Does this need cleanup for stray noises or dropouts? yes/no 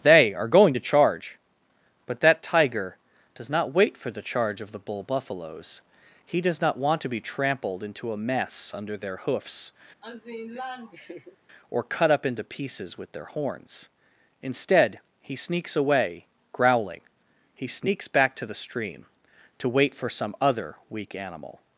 yes